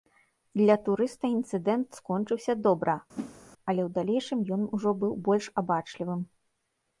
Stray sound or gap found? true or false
true